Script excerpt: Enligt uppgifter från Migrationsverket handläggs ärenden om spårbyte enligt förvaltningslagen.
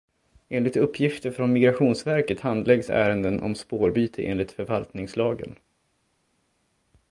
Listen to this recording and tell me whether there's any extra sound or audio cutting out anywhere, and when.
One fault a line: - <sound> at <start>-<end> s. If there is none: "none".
none